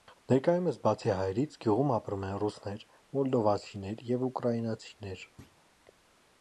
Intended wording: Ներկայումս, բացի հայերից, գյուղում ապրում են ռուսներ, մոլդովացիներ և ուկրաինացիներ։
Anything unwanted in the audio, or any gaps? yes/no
yes